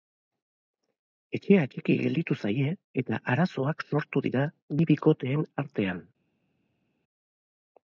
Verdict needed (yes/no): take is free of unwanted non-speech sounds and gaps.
yes